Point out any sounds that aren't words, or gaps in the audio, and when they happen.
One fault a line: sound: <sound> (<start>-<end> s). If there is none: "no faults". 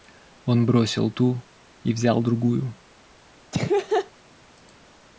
sound: laugh (3.5-4.1 s)